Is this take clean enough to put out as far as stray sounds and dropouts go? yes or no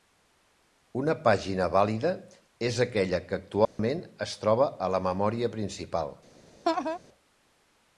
no